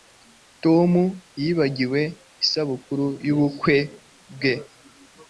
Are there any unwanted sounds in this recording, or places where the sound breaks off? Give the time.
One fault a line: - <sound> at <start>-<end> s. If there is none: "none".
none